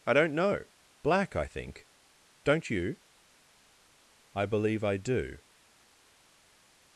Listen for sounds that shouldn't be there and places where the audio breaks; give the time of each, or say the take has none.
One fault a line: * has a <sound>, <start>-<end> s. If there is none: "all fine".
all fine